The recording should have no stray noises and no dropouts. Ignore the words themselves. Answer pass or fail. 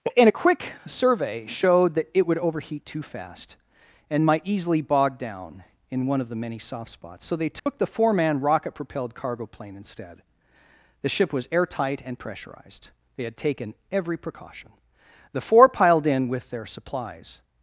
fail